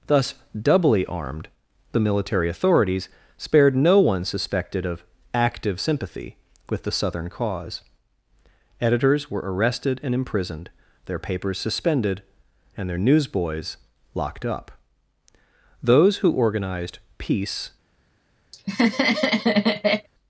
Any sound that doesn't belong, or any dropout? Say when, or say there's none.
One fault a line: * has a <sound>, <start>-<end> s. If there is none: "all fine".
* has a laugh, 18.5-20.1 s